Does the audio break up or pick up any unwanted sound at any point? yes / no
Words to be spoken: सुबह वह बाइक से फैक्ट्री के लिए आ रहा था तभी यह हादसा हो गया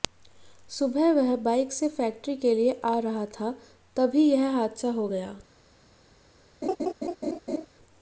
yes